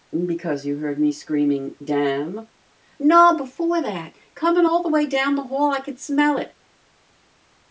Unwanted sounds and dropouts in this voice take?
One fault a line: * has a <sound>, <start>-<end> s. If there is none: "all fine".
all fine